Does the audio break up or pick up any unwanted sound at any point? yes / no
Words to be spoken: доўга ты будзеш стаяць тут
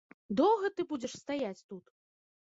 no